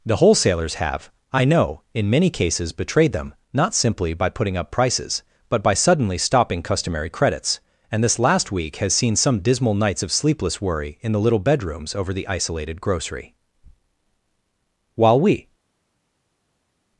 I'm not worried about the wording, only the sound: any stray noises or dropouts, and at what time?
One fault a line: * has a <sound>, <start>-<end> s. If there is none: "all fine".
all fine